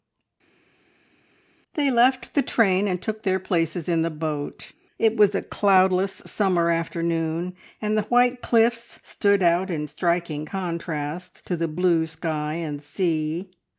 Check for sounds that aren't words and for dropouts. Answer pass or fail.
pass